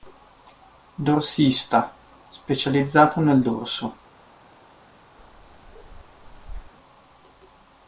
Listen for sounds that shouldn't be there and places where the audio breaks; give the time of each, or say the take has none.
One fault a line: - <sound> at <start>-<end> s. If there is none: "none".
- bark at 5.2-6.7 s